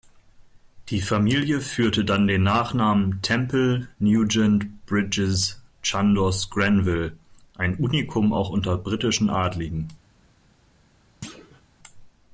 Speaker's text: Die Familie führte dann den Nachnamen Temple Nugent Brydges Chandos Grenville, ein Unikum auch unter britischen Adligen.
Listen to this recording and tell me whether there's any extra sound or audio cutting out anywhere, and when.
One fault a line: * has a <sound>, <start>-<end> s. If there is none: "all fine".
* has a thud, 11.2-11.6 s